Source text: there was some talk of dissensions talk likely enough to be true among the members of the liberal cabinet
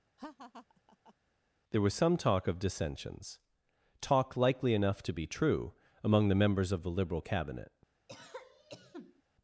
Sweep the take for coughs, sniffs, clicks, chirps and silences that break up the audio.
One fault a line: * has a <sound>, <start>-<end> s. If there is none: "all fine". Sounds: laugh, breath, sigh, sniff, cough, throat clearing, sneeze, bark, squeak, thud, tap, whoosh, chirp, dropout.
* has a laugh, 0.2-1.1 s
* has a cough, 8.1-9.2 s